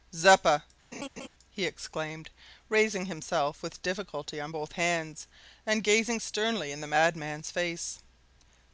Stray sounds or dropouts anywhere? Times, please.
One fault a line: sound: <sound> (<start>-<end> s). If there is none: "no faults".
sound: laugh (0.9-1.3 s)